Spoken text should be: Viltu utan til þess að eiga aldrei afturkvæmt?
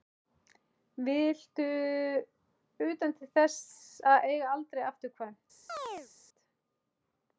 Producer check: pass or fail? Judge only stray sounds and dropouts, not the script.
fail